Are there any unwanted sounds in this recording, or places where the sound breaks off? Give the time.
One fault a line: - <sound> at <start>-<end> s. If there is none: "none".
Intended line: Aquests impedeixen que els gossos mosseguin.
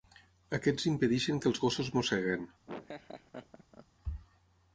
- laugh at 2.7-3.9 s